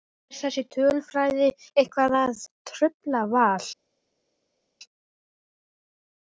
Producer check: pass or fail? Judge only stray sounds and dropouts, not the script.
pass